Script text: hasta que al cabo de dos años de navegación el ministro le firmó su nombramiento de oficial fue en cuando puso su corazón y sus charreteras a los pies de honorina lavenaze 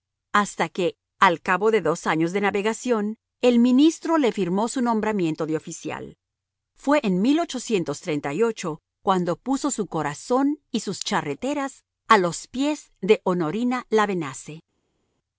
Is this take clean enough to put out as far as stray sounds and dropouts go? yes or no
yes